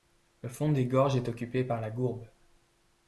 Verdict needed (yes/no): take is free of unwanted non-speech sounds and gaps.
yes